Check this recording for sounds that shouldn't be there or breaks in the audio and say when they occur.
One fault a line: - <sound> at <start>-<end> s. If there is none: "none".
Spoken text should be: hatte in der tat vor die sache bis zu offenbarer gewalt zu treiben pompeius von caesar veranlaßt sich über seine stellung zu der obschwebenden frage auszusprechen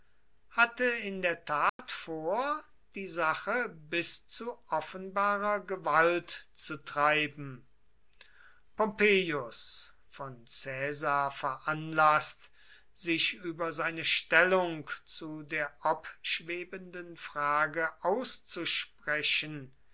- dropout at 1.7-1.8 s